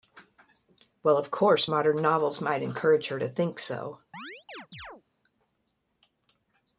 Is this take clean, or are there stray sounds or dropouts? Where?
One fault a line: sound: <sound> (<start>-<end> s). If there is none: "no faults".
sound: chirp (4.1-5.0 s)